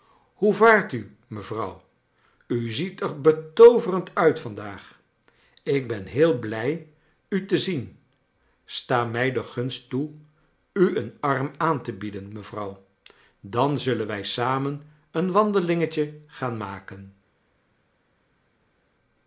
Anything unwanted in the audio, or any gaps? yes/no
no